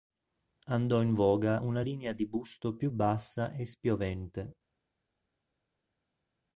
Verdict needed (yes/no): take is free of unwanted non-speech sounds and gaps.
yes